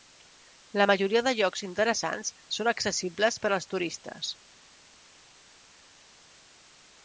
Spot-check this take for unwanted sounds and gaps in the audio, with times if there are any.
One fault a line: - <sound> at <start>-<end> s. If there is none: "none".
none